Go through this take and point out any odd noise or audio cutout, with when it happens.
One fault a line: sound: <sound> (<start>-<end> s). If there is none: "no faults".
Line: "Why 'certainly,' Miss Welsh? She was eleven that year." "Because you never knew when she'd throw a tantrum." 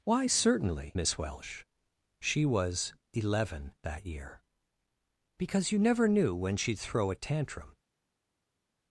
no faults